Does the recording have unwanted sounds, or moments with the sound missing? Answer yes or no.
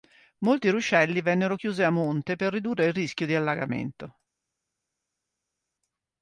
no